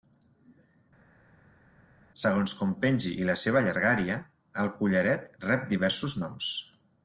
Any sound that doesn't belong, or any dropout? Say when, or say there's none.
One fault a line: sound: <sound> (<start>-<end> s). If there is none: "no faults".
no faults